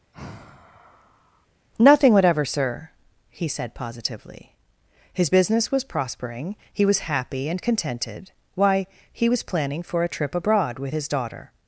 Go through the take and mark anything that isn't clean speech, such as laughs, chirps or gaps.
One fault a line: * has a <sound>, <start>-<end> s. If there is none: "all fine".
* has a sigh, 0.1-1.5 s